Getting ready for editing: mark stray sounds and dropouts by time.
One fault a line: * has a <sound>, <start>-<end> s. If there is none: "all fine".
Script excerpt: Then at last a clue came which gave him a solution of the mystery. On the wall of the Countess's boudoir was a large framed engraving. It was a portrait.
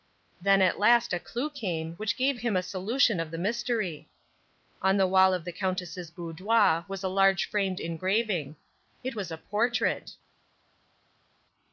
all fine